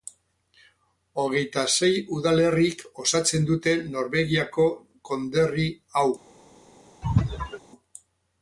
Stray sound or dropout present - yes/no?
yes